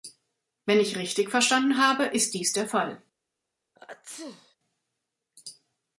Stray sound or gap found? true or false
true